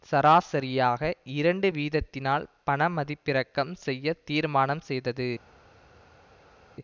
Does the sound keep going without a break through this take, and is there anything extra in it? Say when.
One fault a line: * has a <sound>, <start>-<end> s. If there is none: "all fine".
all fine